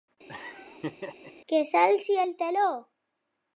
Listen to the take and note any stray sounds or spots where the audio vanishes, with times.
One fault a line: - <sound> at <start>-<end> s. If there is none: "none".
- laugh at 0.3-1.3 s